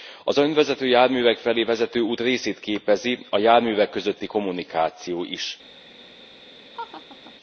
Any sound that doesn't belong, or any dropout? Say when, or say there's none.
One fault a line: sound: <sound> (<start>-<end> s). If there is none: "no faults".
sound: laugh (6.7-7.3 s)